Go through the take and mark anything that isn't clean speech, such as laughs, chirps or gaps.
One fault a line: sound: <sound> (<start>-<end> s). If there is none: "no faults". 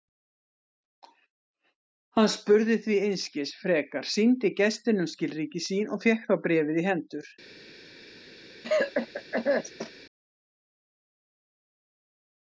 sound: cough (8.6-9.9 s)